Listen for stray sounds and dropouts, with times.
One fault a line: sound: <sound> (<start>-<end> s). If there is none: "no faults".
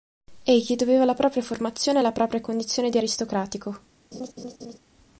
sound: laugh (4.1-4.8 s)